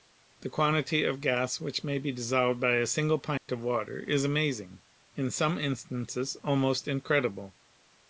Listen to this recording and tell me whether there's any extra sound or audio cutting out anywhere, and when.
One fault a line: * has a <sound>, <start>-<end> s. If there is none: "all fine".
* has a dropout, 3.4-3.5 s